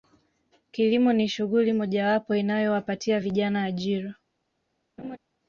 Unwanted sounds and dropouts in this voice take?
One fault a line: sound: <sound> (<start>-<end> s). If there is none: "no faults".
sound: laugh (5.0-5.2 s)